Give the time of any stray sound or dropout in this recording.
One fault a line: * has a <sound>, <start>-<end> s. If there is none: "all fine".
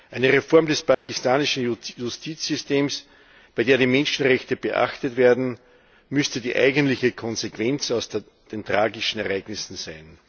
* has a dropout, 0.9-1.1 s